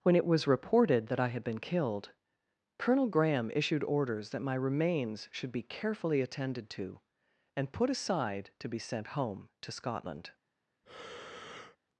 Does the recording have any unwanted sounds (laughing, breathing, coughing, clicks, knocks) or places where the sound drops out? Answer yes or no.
yes